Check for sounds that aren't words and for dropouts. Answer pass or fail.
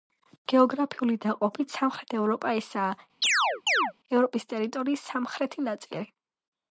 fail